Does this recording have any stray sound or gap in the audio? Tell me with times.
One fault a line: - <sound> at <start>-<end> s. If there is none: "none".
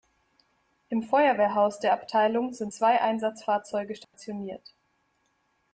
- dropout at 4.0-4.1 s